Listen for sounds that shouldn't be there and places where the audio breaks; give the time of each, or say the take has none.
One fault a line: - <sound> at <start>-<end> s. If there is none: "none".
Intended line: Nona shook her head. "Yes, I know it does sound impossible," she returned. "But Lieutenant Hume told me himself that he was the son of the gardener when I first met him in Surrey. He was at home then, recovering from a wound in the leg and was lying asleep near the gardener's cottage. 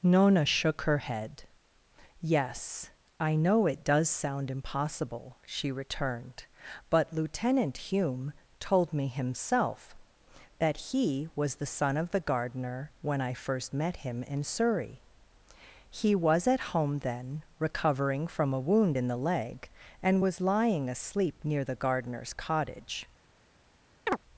- chirp at 24.1-24.2 s